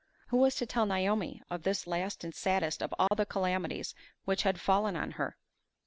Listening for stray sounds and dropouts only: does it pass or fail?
fail